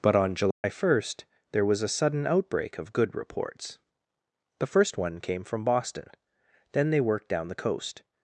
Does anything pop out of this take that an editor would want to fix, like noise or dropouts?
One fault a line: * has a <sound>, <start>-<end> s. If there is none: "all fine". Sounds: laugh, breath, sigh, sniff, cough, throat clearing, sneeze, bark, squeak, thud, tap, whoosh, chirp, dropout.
* has a dropout, 0.5-0.6 s